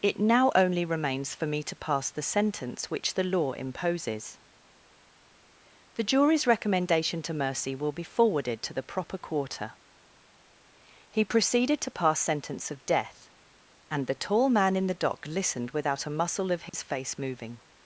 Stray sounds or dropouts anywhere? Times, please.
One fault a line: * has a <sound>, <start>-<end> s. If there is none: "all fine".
* has a dropout, 16.7-16.7 s